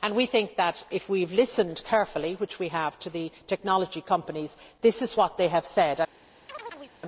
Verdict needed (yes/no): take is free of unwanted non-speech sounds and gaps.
no